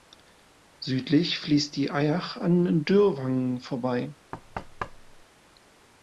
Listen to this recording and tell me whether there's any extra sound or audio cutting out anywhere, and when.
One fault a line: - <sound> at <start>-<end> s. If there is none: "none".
- thud at 4.3-5.2 s